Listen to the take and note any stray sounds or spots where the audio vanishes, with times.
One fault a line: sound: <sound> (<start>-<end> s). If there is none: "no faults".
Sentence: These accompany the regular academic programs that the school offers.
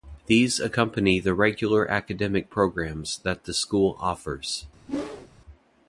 sound: whoosh (4.9-5.3 s)